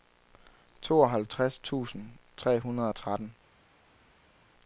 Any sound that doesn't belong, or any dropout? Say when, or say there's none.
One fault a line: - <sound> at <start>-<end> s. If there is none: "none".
none